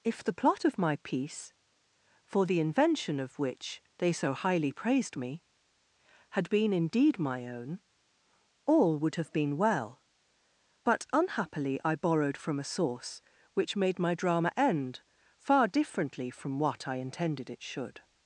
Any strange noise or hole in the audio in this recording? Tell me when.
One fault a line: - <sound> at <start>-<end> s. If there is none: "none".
none